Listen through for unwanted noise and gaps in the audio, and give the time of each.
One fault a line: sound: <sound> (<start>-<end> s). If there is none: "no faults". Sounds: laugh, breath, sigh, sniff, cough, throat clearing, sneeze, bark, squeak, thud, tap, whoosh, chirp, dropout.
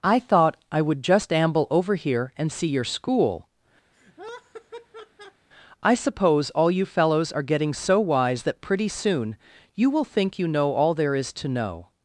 sound: laugh (3.9-5.5 s)